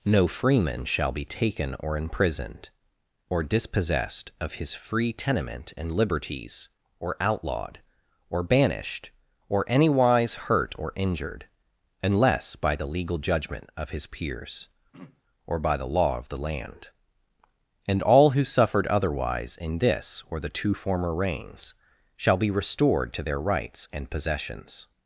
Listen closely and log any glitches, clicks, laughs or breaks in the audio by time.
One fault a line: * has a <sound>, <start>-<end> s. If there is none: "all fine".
* has a throat clearing, 14.9-15.2 s